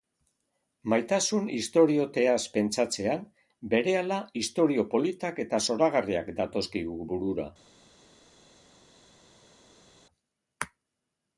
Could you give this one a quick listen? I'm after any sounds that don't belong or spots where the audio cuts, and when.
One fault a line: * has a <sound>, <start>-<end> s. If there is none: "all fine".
all fine